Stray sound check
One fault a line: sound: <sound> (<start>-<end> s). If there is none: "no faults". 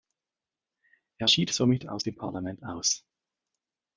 no faults